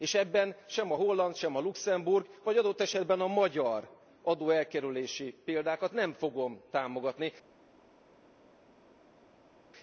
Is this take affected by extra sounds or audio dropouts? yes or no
no